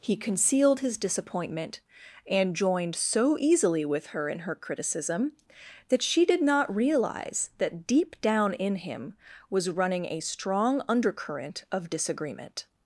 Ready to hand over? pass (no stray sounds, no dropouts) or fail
pass